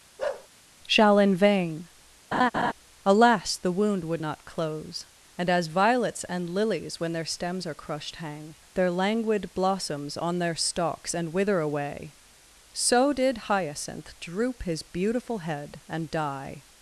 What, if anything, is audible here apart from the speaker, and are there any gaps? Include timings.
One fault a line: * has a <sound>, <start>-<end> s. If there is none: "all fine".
* has a bark, 0.2-0.5 s
* has a laugh, 2.3-2.7 s